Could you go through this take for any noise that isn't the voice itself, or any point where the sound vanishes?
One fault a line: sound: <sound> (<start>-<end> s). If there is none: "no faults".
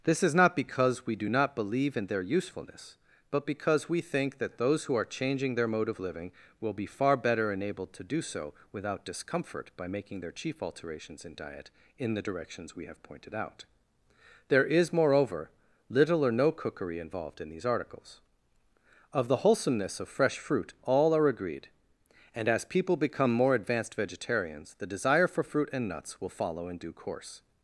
no faults